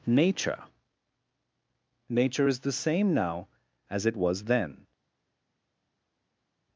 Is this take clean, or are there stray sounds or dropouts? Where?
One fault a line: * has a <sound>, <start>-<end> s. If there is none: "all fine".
all fine